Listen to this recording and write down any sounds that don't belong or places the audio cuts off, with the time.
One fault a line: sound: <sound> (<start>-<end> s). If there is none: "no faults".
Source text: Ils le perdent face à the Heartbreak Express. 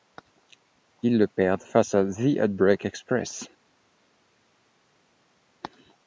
no faults